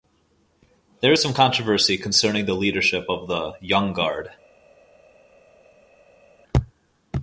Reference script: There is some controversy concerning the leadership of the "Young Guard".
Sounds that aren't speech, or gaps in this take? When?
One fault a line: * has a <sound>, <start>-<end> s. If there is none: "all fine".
all fine